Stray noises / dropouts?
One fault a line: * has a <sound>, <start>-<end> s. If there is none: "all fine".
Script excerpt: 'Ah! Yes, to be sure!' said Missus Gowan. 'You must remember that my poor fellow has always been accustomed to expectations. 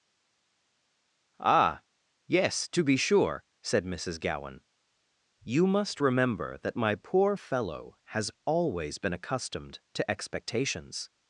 all fine